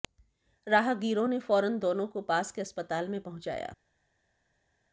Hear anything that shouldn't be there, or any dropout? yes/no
no